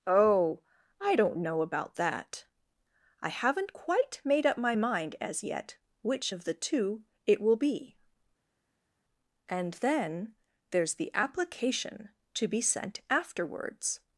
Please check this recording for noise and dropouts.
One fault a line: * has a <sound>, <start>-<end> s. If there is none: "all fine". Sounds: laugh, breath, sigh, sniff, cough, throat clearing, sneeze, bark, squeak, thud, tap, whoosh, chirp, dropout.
all fine